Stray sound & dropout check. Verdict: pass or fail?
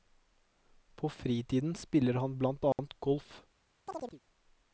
fail